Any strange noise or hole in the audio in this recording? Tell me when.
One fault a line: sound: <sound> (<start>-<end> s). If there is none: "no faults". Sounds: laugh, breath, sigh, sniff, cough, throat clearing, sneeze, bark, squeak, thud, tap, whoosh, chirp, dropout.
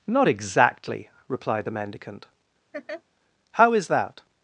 sound: laugh (2.7-3.0 s)